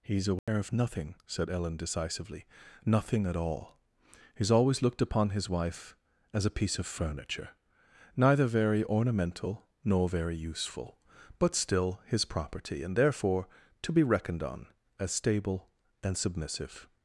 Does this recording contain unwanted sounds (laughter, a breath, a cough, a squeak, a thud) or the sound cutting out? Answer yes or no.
yes